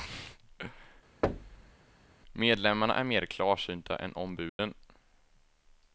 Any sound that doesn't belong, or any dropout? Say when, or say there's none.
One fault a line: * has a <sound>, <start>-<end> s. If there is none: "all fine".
* has a thud, 1.2-1.7 s
* has a dropout, 4.5-4.6 s